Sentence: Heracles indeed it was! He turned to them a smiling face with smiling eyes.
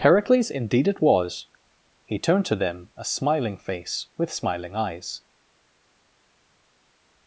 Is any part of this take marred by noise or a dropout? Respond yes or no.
no